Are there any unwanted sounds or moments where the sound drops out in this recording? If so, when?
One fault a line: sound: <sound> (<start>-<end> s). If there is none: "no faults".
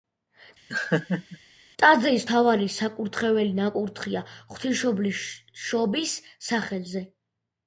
sound: laugh (0.7-1.4 s)